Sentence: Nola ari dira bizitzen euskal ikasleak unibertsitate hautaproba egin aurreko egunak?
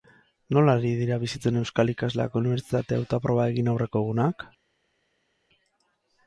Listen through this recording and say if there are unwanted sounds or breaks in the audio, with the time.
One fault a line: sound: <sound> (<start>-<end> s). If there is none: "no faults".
no faults